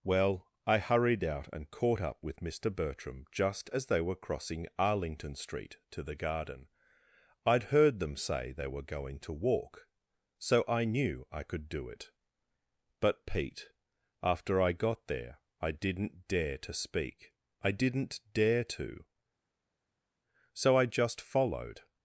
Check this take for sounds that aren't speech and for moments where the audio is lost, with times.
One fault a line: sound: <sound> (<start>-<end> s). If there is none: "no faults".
no faults